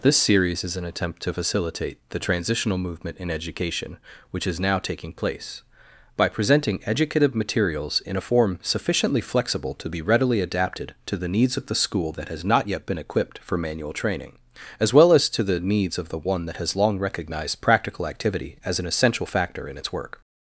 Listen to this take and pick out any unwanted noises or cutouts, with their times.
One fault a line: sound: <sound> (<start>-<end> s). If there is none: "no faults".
no faults